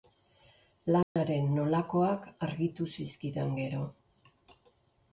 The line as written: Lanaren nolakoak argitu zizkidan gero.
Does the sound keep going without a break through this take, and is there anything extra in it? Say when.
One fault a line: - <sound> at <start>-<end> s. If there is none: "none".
- dropout at 1.0-1.2 s